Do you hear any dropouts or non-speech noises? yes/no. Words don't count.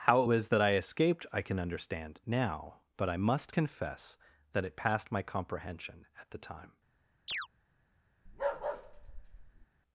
yes